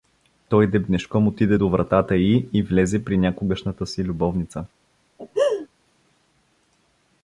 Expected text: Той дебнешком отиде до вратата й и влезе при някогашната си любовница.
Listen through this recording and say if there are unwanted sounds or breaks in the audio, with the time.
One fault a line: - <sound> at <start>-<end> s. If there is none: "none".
- laugh at 5.2-5.7 s